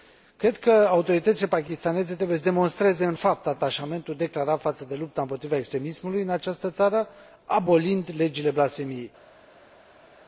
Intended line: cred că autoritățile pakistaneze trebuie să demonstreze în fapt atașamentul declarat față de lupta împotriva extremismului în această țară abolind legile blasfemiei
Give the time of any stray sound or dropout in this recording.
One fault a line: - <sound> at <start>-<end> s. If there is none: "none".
none